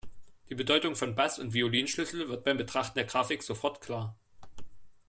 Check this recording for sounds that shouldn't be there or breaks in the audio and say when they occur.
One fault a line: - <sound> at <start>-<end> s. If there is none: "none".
none